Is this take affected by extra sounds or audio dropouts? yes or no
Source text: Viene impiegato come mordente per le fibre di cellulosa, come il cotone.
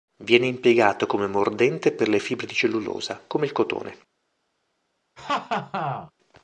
yes